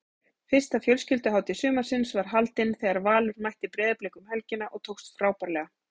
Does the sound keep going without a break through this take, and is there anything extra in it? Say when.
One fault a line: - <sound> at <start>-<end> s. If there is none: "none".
none